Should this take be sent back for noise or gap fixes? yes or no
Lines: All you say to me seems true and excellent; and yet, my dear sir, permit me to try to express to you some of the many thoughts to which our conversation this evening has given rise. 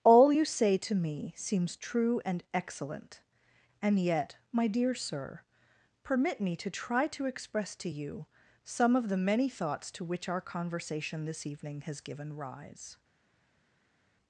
no